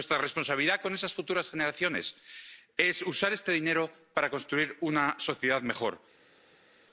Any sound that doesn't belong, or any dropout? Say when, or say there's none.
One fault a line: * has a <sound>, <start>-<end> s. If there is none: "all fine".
all fine